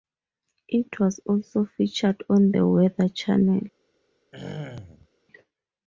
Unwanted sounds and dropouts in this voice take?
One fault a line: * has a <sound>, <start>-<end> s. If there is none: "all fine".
* has a throat clearing, 4.3-5.1 s